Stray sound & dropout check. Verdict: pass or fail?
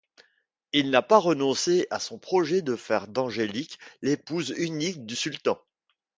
pass